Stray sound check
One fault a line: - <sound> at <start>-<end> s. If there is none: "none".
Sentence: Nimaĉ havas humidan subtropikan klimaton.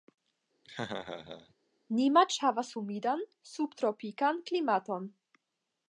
- laugh at 0.6-1.5 s